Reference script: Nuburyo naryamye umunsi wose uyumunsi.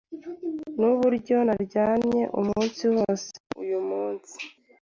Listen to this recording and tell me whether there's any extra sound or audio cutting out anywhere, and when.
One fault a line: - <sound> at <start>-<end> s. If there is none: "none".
none